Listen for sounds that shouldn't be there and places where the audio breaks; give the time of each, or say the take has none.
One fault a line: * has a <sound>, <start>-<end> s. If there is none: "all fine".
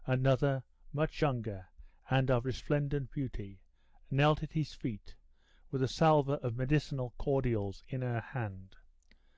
all fine